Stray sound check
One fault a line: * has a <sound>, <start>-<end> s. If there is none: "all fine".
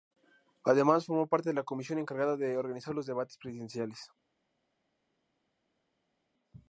all fine